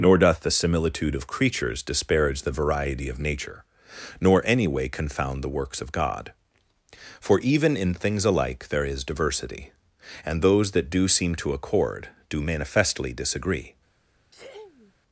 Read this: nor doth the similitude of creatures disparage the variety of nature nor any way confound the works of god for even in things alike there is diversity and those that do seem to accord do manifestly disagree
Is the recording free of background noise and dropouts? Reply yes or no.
no